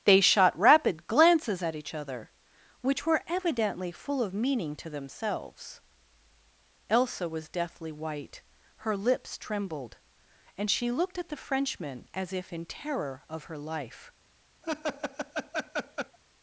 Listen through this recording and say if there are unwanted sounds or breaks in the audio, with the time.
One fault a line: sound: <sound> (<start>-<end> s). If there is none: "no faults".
sound: laugh (14.6-16.2 s)